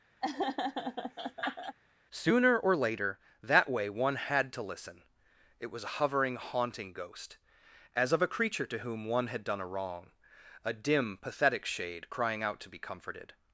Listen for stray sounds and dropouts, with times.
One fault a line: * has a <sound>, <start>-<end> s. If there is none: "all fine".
* has a laugh, 0.2-1.8 s